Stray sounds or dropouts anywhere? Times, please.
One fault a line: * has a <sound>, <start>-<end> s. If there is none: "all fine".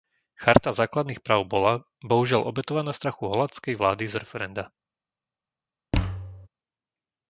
* has a thud, 5.9-6.5 s